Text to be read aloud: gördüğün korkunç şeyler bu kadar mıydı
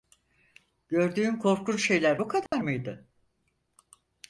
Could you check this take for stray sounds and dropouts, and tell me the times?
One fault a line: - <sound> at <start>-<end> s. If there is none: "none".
- dropout at 2.5-2.5 s